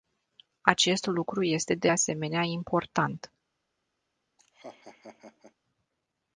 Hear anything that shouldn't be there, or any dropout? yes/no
yes